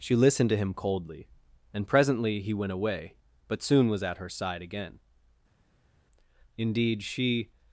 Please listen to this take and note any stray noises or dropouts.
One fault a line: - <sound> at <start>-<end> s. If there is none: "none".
none